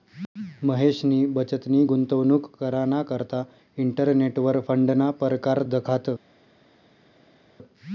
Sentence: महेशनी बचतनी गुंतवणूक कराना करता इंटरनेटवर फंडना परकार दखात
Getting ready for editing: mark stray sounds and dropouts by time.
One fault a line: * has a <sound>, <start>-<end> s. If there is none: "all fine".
all fine